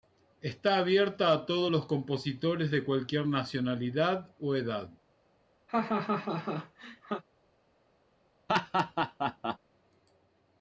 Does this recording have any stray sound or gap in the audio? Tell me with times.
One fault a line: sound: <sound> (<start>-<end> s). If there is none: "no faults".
sound: laugh (5.7-7.2 s)
sound: laugh (8.5-9.6 s)